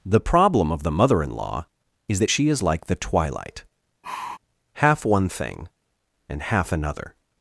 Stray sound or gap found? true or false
true